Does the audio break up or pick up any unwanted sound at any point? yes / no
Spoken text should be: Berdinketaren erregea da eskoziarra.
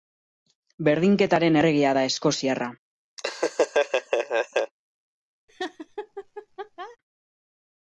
yes